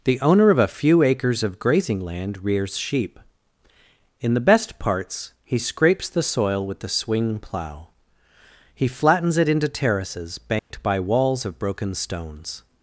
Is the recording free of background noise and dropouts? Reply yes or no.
no